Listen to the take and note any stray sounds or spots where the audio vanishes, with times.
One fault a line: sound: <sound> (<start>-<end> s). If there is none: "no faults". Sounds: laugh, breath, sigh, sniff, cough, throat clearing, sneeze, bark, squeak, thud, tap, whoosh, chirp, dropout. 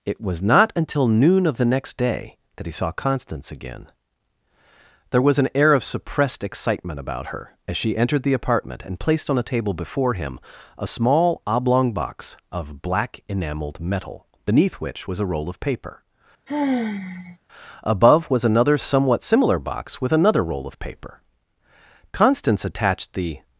sound: sigh (16.5-17.4 s)